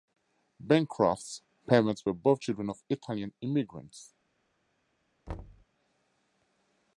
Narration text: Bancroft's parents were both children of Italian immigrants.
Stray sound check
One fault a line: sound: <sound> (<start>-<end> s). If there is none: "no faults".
sound: thud (5.3-5.7 s)